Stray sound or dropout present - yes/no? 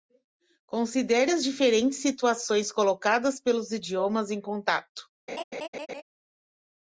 yes